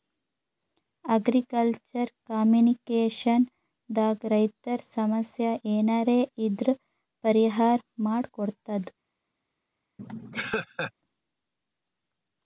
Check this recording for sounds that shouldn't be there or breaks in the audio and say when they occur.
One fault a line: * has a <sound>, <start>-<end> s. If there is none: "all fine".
* has a laugh, 10.0-10.9 s